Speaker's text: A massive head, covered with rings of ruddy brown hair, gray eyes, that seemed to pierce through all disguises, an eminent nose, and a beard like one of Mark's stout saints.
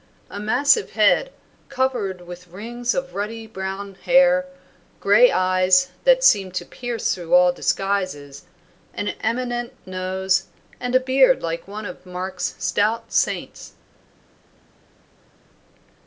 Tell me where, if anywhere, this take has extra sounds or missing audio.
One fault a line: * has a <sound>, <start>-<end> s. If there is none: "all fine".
all fine